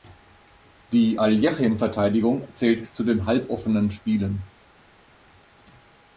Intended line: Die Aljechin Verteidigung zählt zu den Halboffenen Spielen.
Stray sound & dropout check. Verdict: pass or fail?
pass